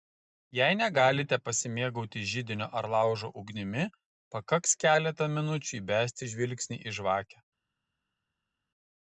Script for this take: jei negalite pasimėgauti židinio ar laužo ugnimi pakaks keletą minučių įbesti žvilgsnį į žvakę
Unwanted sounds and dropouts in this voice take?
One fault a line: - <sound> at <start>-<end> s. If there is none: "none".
none